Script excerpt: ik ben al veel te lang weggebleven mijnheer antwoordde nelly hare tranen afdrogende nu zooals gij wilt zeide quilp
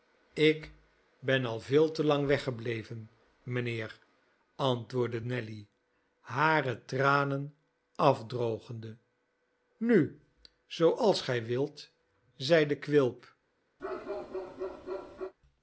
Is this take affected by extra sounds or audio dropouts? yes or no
yes